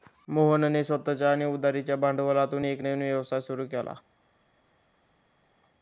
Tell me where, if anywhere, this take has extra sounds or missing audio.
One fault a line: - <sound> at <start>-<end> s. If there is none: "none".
none